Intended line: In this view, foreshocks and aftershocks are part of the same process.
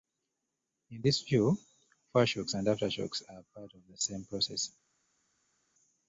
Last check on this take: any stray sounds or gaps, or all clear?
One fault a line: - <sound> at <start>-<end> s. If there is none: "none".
none